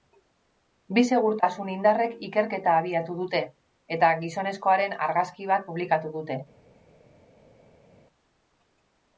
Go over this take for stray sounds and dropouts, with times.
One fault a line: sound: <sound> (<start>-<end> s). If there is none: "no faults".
no faults